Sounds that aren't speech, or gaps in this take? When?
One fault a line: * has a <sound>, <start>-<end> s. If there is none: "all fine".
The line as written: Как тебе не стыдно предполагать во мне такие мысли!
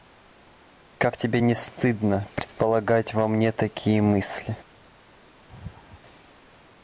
* has a laugh, 5.5-6.0 s